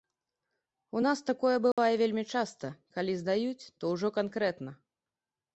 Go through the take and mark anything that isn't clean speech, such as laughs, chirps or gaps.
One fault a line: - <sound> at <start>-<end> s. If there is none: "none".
- dropout at 1.7-1.8 s